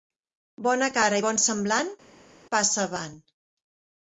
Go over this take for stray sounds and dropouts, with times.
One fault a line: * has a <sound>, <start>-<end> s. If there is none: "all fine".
all fine